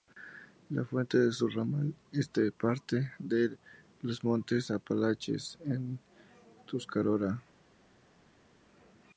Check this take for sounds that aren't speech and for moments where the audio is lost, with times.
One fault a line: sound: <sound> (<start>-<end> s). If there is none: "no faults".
no faults